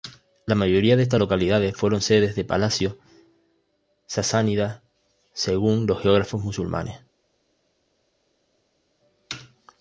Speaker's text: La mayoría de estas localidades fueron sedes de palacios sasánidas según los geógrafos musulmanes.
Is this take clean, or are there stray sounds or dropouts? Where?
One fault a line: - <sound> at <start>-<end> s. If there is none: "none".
none